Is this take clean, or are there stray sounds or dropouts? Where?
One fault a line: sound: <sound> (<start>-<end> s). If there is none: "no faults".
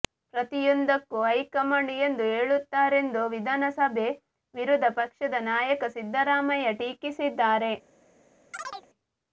sound: chirp (8.5-8.9 s)